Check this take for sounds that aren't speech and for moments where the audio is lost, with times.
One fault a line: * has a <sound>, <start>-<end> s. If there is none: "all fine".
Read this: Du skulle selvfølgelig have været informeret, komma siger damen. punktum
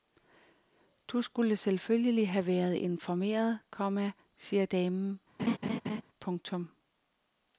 * has a laugh, 5.4-6.0 s